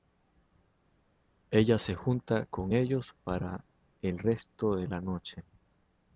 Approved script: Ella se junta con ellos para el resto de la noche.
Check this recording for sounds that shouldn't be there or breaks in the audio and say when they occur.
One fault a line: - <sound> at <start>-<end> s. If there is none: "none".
none